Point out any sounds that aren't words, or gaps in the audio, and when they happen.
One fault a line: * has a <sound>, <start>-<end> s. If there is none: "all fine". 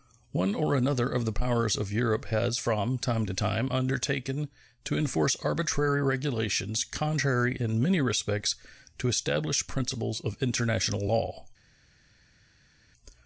all fine